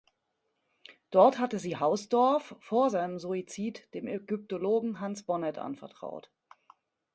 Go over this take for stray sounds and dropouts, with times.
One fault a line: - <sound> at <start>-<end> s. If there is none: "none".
none